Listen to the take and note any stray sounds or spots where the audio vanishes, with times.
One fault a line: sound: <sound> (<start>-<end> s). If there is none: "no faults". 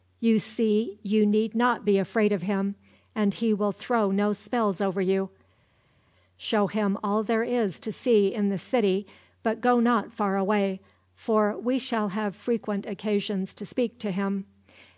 no faults